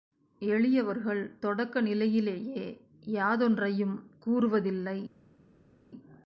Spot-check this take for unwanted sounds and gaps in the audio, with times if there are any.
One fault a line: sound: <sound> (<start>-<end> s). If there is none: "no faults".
no faults